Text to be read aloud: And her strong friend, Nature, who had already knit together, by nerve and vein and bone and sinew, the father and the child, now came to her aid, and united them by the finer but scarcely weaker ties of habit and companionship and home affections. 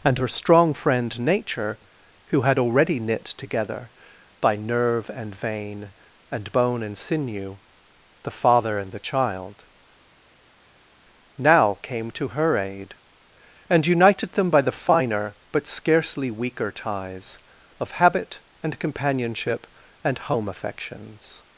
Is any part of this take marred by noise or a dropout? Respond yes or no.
no